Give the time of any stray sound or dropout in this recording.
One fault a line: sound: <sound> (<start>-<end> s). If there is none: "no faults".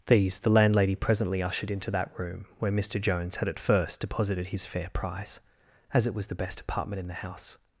no faults